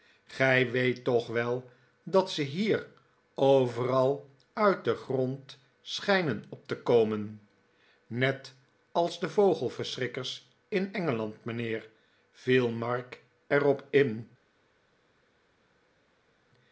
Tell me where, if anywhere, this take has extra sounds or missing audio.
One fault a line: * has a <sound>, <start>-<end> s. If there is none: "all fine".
all fine